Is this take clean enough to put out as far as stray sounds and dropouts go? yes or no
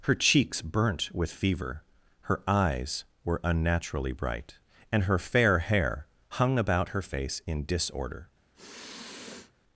no